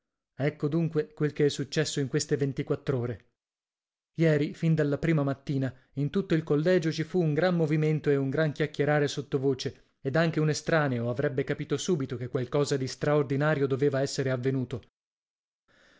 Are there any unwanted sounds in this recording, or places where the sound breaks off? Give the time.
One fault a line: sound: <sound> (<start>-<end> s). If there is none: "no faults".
no faults